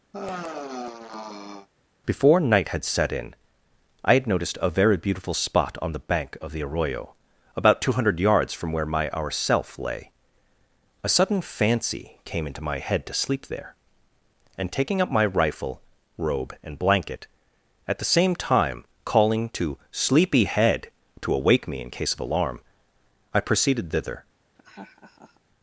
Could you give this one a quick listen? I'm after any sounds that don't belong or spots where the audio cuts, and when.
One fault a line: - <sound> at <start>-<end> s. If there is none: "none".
- sigh at 0.1-1.7 s
- laugh at 24.6-25.4 s